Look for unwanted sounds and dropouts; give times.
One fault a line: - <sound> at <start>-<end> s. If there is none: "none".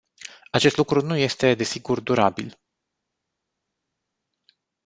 none